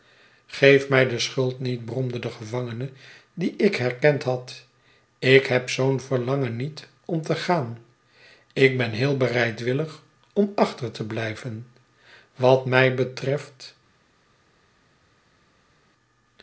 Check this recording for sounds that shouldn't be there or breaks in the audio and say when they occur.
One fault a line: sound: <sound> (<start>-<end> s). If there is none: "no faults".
no faults